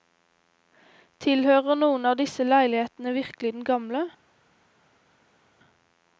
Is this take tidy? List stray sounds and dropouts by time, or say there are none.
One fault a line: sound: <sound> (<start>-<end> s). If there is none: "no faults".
no faults